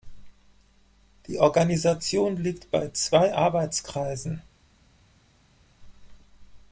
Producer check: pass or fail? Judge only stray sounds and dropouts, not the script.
pass